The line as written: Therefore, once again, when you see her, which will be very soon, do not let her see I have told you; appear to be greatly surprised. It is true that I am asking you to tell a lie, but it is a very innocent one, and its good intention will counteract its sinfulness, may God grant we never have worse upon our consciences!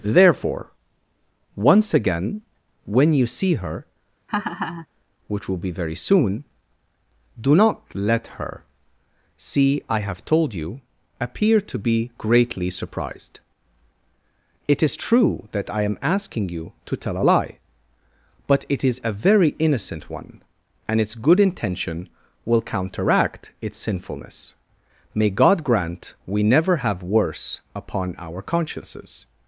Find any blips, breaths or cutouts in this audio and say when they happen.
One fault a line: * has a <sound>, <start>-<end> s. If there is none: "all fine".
* has a laugh, 4.3-4.9 s